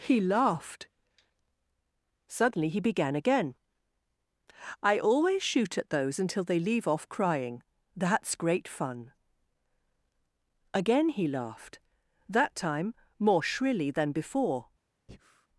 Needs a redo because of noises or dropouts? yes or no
yes